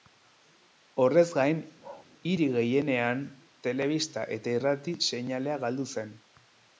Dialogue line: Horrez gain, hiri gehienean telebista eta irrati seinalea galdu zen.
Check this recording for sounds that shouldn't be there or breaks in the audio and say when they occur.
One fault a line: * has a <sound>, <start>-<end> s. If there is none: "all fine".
* has a bark, 1.8-2.1 s